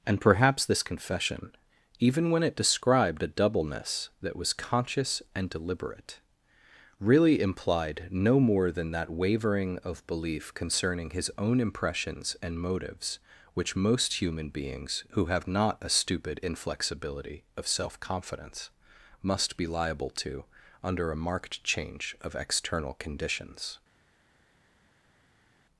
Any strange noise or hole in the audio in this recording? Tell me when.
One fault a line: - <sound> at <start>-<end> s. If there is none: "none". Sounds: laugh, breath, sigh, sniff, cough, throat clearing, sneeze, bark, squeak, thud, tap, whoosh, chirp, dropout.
none